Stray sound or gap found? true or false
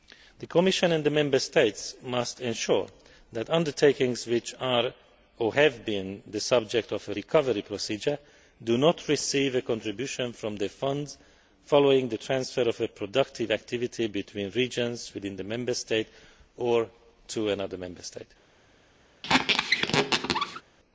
true